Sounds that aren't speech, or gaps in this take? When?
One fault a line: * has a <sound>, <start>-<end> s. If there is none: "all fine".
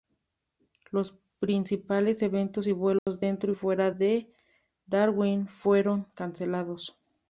* has a dropout, 3.0-3.1 s